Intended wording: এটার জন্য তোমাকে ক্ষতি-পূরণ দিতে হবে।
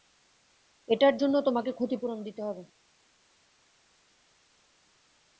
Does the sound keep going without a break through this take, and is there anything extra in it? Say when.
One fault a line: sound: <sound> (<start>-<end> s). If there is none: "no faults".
no faults